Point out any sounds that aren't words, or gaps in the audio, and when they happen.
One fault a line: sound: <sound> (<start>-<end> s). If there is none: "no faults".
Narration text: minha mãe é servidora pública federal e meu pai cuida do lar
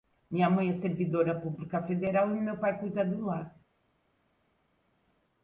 no faults